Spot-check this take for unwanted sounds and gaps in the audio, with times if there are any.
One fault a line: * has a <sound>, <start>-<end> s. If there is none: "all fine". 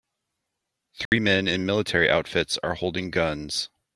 * has a dropout, 1.1-1.1 s